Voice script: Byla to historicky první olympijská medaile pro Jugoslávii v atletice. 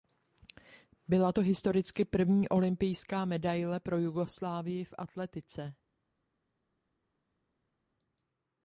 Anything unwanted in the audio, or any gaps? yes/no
no